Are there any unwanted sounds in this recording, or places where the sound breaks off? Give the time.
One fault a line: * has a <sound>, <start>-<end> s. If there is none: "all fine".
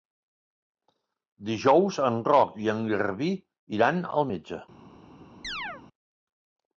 * has a chirp, 5.4-5.8 s